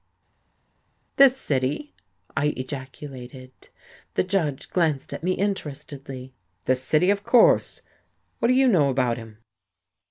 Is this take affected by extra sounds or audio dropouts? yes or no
no